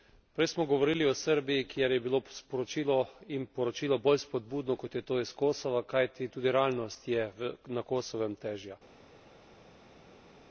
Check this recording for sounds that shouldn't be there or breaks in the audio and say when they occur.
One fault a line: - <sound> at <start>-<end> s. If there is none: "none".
none